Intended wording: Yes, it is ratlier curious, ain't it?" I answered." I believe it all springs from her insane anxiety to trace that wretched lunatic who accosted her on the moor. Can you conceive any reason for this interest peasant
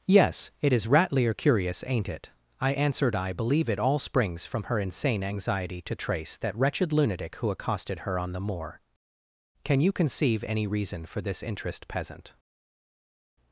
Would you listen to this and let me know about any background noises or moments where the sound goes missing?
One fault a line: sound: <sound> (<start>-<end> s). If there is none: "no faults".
no faults